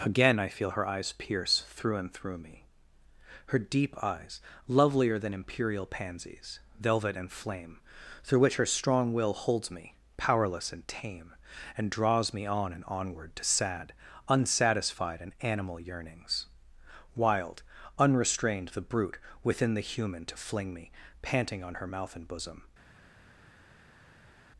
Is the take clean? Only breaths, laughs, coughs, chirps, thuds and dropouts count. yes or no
yes